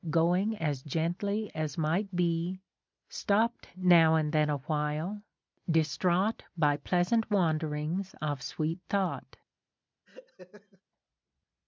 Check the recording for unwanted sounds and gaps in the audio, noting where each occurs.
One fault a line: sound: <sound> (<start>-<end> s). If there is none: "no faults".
sound: laugh (10.1-10.8 s)